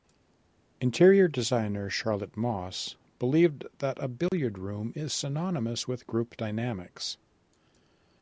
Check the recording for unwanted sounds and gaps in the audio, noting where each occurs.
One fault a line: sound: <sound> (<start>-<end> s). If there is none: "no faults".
sound: dropout (4.3-4.3 s)